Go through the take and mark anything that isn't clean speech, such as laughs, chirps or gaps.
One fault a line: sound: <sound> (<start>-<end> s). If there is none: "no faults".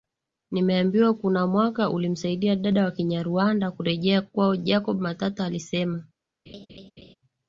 sound: laugh (6.5-7.1 s)